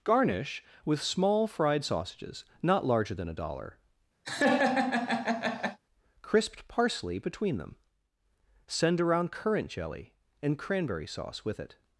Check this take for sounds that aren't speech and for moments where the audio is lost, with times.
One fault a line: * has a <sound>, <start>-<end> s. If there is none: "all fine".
* has a laugh, 4.2-5.8 s